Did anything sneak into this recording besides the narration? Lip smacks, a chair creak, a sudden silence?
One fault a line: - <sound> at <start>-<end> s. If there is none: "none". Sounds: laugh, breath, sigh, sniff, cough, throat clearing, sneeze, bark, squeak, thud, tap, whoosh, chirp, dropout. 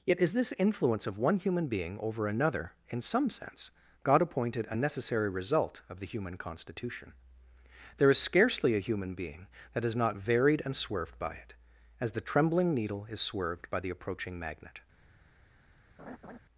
- laugh at 16.0-16.4 s